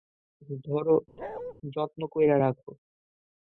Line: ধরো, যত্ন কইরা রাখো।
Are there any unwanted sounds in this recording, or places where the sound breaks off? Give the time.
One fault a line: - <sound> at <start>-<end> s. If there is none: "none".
- bark at 1.2-1.5 s